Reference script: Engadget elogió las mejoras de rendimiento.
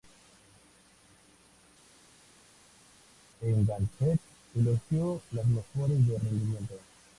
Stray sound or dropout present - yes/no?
no